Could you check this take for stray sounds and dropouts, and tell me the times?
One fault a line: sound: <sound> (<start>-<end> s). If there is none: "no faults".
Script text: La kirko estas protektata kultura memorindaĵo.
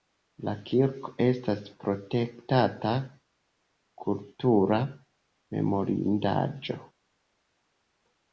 no faults